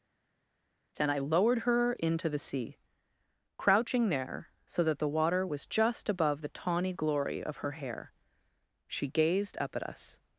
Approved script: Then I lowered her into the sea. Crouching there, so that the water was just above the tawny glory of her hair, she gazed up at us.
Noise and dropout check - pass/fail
pass